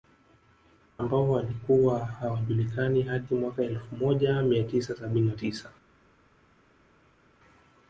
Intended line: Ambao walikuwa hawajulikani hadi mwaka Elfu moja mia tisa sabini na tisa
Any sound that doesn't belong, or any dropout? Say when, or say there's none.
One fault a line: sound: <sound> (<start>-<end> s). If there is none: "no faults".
no faults